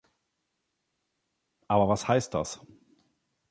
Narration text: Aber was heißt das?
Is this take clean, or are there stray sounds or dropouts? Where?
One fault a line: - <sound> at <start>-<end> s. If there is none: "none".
none